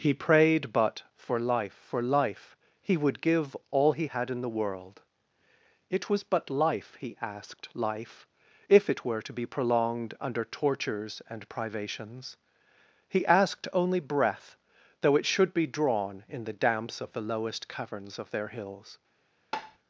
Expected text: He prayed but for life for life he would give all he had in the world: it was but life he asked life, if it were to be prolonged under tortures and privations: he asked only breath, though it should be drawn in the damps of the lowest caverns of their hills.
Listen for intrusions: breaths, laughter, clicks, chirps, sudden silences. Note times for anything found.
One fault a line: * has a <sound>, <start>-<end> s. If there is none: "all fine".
* has a tap, 19.5-19.8 s